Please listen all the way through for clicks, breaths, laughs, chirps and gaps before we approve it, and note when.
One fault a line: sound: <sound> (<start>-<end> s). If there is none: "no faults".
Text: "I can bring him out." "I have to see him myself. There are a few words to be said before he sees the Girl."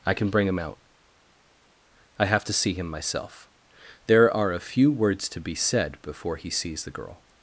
no faults